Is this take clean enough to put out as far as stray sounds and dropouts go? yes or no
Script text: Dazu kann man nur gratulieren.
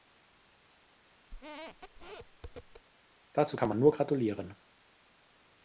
no